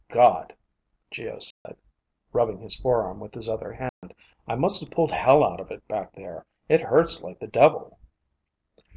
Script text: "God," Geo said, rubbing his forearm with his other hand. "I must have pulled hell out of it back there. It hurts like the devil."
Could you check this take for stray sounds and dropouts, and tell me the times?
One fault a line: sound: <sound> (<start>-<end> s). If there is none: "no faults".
sound: dropout (1.5-1.7 s)
sound: dropout (3.9-4.0 s)